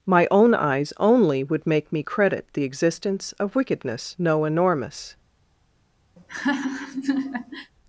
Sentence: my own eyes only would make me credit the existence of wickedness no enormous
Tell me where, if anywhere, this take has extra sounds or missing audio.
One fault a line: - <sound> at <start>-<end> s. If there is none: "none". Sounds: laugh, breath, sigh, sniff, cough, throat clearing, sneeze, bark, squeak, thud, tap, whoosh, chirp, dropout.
- laugh at 6.2-7.7 s